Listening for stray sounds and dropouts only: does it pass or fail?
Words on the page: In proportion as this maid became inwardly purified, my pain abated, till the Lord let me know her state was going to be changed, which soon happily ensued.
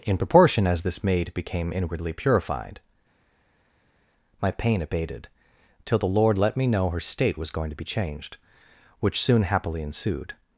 pass